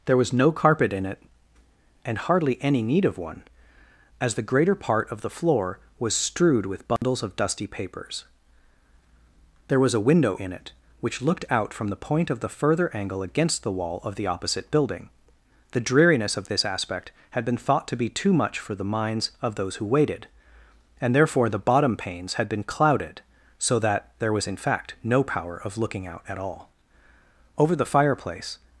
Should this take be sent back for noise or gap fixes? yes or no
yes